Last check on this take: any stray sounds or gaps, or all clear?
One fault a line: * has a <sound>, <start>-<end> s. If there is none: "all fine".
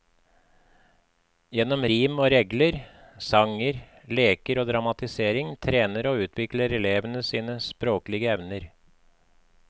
all fine